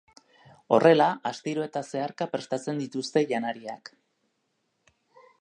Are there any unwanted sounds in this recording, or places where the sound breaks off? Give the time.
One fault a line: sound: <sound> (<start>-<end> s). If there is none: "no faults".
no faults